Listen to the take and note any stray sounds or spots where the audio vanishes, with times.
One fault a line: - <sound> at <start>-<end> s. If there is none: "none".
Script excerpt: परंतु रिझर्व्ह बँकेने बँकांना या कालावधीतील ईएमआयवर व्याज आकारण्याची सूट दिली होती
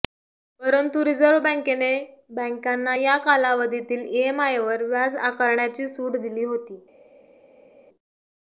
none